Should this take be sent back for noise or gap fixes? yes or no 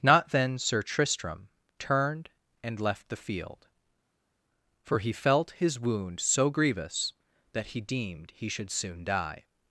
no